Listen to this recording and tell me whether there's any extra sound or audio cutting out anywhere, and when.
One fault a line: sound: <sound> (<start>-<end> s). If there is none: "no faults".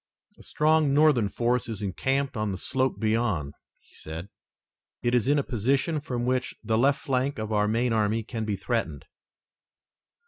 no faults